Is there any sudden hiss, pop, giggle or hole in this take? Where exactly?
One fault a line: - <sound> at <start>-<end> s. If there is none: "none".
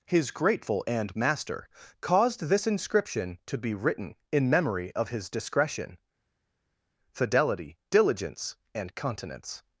none